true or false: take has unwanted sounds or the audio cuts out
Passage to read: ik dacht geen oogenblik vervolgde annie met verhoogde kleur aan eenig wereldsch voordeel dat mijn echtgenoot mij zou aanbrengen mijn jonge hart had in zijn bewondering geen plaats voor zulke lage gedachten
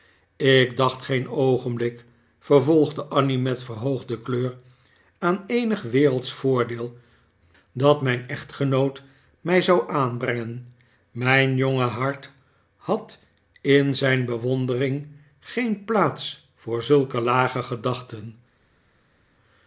false